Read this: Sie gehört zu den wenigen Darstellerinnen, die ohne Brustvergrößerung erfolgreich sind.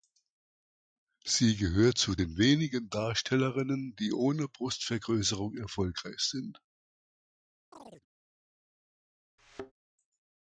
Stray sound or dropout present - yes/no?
yes